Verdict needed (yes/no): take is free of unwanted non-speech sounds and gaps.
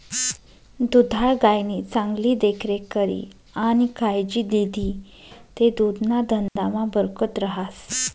no